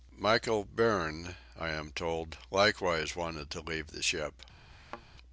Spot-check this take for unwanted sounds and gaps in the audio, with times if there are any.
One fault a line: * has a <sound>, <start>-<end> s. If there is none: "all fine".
* has a thud, 4.7-5.0 s